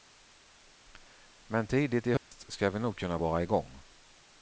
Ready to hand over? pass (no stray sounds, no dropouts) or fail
fail